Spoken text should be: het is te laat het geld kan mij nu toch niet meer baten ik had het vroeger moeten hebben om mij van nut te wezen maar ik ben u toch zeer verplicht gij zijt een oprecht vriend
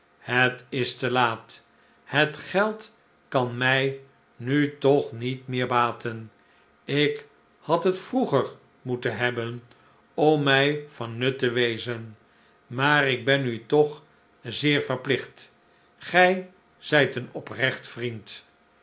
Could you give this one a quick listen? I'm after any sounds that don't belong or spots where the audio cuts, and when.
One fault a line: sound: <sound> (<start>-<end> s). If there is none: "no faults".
no faults